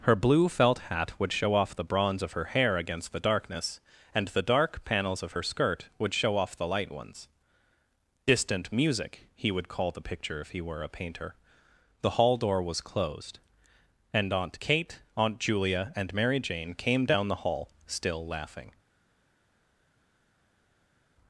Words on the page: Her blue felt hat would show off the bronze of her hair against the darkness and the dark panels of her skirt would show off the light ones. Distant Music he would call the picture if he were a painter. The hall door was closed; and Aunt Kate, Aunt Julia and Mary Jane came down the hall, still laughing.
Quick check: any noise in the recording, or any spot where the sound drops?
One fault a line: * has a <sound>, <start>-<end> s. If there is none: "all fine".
all fine